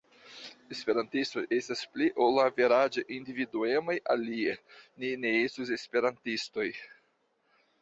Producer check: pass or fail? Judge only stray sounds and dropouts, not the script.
pass